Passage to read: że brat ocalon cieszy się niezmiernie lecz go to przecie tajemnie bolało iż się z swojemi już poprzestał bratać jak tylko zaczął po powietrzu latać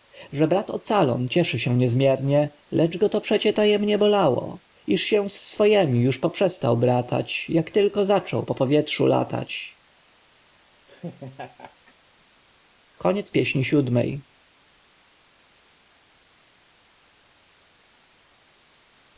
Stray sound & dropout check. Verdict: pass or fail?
fail